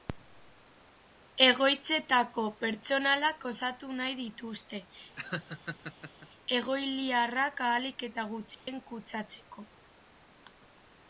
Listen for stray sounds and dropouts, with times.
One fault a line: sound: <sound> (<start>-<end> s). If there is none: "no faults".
sound: laugh (5.2-6.3 s)
sound: dropout (8.5-8.7 s)